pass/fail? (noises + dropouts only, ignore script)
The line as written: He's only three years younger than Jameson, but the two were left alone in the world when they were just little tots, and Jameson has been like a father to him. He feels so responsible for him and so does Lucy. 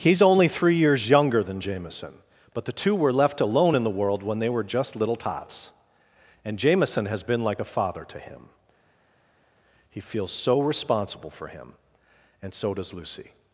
pass